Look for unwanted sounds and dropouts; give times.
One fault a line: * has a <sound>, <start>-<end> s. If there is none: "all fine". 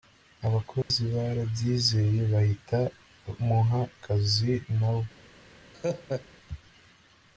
* has a dropout, 0.8-0.9 s
* has a laugh, 5.7-6.3 s